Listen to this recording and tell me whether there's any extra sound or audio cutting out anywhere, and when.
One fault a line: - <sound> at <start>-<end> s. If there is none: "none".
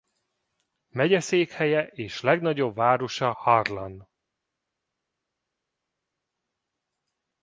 none